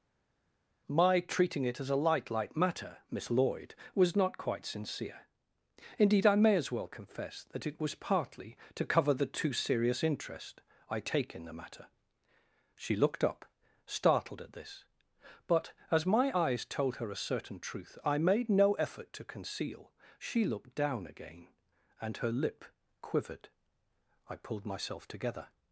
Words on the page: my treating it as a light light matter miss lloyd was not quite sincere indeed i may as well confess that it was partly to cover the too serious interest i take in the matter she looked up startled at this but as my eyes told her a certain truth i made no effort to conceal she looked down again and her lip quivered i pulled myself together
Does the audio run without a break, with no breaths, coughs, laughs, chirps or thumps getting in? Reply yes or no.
yes